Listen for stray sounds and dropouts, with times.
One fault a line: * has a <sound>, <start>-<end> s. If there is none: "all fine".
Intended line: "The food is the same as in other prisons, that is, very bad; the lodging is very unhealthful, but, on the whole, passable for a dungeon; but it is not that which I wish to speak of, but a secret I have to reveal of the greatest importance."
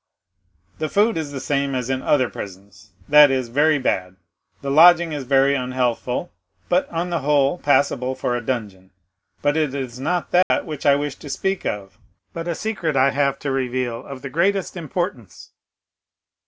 * has a dropout, 10.4-10.5 s